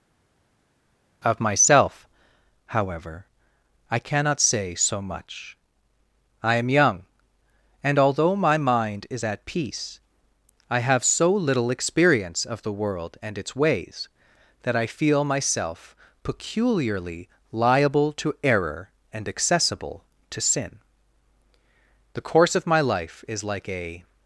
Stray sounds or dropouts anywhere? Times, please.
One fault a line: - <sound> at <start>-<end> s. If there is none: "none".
none